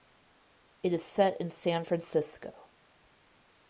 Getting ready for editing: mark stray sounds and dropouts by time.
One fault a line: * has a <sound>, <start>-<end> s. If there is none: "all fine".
all fine